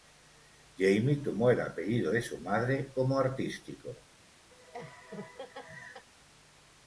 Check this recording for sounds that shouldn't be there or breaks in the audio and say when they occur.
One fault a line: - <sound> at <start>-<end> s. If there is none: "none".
- laugh at 4.5-6.1 s